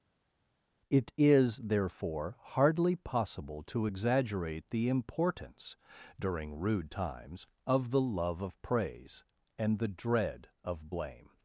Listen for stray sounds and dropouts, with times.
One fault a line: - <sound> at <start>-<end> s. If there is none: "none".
none